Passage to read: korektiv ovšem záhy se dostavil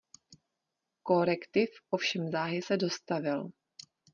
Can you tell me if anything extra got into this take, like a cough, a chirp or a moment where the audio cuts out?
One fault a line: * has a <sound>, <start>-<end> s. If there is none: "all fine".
all fine